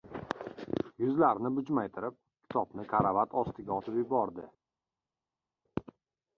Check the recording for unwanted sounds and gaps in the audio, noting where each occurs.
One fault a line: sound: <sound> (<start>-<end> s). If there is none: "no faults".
no faults